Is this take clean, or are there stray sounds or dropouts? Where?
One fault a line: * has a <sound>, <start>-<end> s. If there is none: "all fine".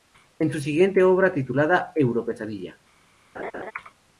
* has a laugh, 3.4-3.7 s